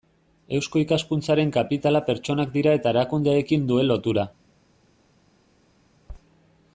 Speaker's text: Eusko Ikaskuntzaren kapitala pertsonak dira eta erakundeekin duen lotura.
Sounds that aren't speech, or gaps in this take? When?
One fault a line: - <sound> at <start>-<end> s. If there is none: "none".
none